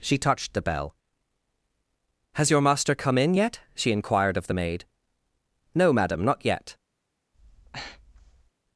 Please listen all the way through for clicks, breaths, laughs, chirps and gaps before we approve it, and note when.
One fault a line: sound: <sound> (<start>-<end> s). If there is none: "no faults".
sound: breath (7.3-8.5 s)